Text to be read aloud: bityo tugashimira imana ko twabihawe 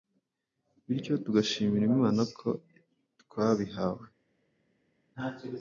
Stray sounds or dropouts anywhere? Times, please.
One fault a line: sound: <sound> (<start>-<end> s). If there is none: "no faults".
no faults